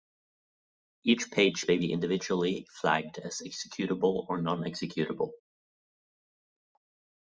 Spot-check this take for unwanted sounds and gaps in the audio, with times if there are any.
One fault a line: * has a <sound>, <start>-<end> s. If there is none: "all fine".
all fine